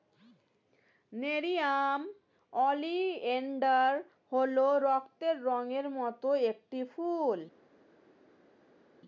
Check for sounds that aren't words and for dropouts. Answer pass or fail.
pass